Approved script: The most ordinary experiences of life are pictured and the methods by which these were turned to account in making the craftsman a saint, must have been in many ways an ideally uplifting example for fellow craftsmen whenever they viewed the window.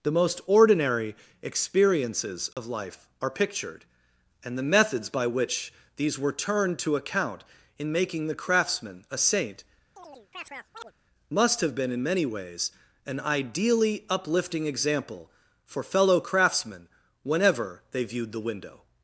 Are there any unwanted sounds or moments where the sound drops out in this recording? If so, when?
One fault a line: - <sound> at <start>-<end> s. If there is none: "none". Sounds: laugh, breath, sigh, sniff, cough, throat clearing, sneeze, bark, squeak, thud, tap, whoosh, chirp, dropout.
- dropout at 2.5-2.6 s
- chirp at 10.0-10.9 s